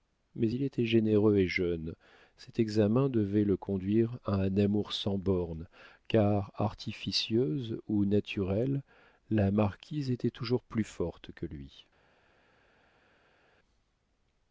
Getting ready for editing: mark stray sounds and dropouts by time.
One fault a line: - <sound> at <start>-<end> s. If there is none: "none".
none